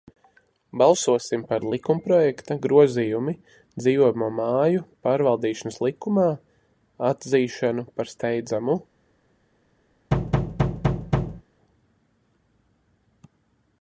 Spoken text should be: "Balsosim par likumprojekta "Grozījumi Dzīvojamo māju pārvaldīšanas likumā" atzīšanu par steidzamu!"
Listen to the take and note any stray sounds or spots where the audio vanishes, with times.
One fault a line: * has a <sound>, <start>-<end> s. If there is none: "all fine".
* has a thud, 10.1-11.4 s